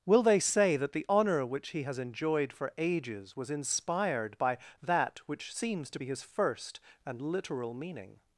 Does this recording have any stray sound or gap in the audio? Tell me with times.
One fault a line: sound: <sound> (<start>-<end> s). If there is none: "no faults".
no faults